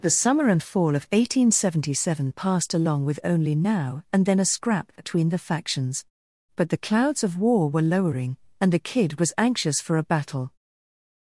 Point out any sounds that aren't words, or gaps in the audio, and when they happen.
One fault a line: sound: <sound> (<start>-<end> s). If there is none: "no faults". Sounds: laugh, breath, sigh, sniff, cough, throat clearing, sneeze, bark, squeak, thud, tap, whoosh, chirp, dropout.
no faults